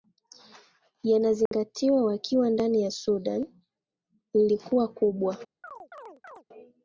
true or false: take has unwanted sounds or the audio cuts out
true